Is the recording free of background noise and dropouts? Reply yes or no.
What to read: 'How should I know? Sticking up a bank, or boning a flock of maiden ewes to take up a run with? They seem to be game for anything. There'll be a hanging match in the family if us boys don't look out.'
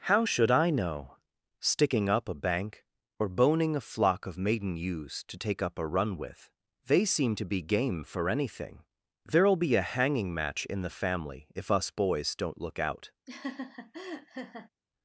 no